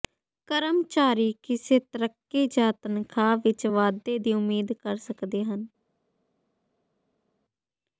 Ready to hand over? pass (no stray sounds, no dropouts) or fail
pass